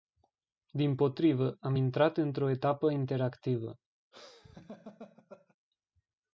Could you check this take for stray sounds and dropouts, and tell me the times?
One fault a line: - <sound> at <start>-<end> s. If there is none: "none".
- laugh at 4.1-5.6 s